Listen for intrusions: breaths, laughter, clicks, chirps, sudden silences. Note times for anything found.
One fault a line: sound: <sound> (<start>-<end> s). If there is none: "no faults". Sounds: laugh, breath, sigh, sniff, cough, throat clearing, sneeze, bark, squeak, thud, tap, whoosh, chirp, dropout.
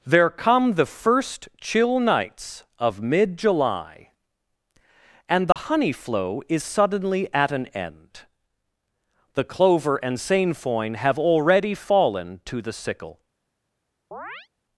sound: dropout (5.5-5.6 s)
sound: chirp (14.1-14.5 s)